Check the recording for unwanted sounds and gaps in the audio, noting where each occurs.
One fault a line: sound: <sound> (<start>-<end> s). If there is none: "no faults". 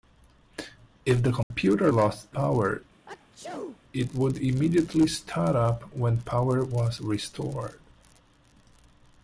sound: dropout (1.4-1.5 s)
sound: sneeze (3.1-3.8 s)